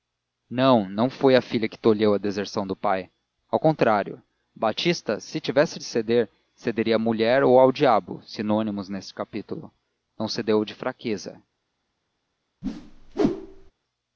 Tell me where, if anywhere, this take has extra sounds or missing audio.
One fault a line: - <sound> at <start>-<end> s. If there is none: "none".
- whoosh at 12.6-13.7 s